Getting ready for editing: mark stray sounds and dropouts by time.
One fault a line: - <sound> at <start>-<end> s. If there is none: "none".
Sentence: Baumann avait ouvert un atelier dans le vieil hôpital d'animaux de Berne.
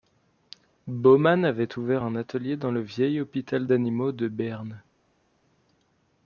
none